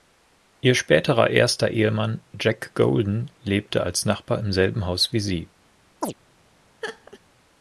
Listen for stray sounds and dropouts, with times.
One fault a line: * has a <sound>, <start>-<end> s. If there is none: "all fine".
* has a chirp, 6.0-6.1 s
* has a laugh, 6.8-7.2 s